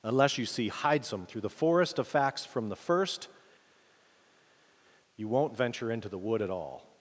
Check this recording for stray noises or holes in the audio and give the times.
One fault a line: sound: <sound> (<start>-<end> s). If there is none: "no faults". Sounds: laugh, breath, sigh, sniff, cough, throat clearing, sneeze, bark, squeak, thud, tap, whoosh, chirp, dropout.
no faults